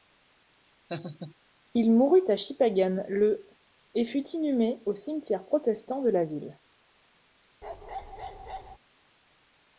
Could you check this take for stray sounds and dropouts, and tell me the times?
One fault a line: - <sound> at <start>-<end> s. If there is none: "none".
- laugh at 0.9-1.3 s
- bark at 7.6-8.8 s